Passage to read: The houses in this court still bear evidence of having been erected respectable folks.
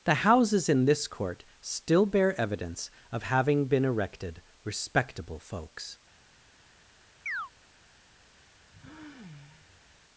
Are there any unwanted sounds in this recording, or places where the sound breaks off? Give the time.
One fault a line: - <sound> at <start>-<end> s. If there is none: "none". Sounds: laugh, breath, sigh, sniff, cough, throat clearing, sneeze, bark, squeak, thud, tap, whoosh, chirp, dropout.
- chirp at 7.3-7.5 s
- sigh at 8.7-10.0 s